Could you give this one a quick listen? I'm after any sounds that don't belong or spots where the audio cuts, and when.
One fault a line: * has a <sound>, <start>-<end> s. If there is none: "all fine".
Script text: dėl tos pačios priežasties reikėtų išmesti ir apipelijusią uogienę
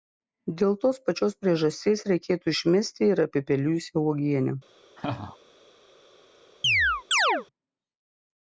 * has a laugh, 5.0-5.4 s
* has a chirp, 6.6-7.5 s